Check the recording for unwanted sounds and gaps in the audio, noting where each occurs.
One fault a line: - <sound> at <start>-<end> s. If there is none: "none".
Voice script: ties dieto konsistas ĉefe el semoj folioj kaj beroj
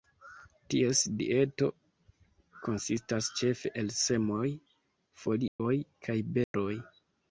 - dropout at 5.5-5.6 s
- dropout at 6.4-6.5 s